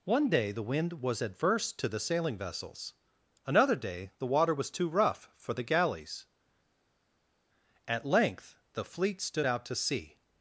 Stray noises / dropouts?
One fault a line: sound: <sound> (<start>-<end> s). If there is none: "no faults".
no faults